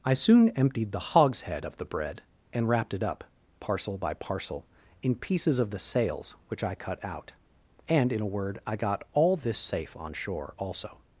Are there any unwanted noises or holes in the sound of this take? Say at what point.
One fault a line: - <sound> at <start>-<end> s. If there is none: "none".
none